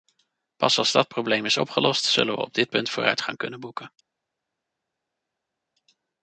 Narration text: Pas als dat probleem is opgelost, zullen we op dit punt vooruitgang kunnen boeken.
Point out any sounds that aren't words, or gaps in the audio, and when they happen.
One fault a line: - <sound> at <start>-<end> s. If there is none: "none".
none